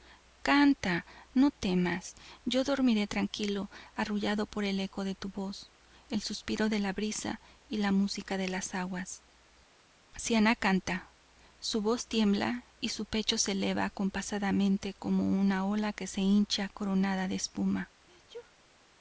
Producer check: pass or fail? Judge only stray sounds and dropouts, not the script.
fail